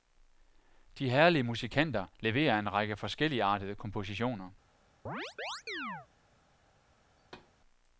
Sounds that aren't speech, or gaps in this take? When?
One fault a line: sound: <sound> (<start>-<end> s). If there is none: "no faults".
sound: chirp (5.1-6.1 s)
sound: thud (7.2-7.5 s)